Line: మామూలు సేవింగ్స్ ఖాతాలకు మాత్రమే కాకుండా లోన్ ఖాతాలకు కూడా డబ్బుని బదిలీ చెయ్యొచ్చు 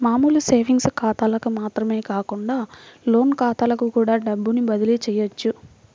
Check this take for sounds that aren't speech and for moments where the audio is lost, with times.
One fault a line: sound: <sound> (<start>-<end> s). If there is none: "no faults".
no faults